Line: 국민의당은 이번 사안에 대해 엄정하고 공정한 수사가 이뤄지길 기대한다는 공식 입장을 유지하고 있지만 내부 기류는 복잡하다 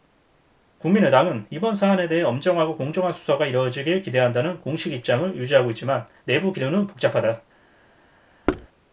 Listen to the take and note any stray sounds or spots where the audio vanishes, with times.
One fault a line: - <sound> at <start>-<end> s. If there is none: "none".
- thud at 8.5-8.7 s